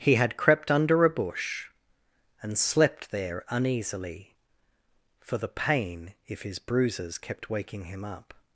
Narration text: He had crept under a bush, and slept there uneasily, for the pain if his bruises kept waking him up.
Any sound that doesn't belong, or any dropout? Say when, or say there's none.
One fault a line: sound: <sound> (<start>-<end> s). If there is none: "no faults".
no faults